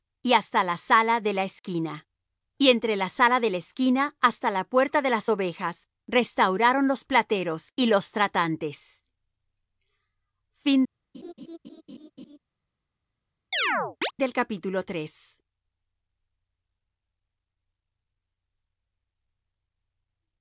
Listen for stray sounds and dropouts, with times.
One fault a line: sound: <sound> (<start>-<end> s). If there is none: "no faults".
sound: laugh (11.1-12.4 s)
sound: chirp (13.5-14.1 s)